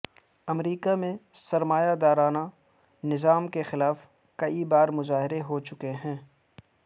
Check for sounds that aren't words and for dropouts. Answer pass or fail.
pass